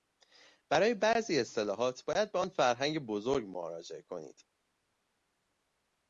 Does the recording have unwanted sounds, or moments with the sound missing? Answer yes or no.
no